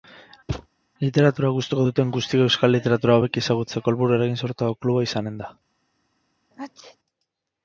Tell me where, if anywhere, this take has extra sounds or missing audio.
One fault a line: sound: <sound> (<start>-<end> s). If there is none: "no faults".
sound: thud (0.5-0.7 s)
sound: sneeze (6.5-7.0 s)